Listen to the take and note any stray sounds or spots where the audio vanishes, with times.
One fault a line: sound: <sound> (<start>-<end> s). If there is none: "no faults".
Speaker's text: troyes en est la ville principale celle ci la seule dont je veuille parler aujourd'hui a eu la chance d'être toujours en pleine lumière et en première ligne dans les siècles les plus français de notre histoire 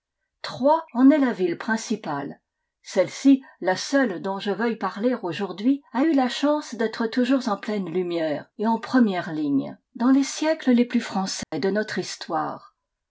sound: dropout (11.4-11.5 s)